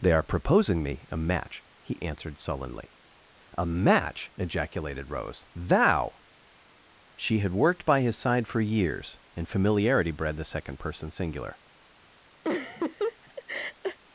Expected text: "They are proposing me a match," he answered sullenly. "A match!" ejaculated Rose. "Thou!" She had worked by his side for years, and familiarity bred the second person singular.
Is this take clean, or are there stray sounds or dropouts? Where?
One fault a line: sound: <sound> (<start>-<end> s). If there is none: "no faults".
sound: laugh (12.4-14.0 s)